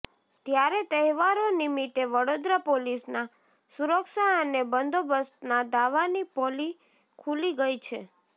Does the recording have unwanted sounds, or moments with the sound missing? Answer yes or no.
no